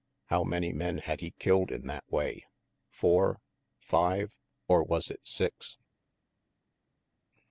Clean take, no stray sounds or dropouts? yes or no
yes